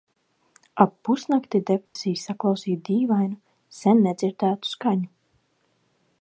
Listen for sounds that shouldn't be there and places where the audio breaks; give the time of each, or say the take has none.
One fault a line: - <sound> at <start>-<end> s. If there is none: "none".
- dropout at 1.9-2.0 s